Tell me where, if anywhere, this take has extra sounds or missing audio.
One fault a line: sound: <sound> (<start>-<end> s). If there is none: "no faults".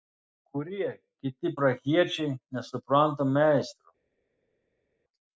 no faults